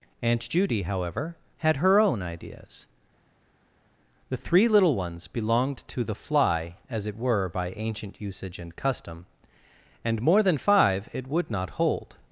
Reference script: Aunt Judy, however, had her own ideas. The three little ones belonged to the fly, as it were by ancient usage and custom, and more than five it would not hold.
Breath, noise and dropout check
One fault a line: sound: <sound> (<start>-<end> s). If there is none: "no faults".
no faults